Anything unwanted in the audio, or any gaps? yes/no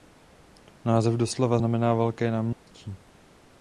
yes